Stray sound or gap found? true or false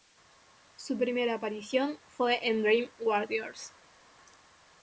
false